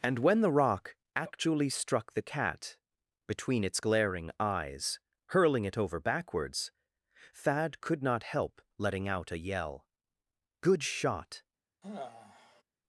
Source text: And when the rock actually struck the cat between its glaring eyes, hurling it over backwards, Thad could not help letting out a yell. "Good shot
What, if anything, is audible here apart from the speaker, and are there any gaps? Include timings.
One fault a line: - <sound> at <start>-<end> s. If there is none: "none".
- sigh at 11.8-12.6 s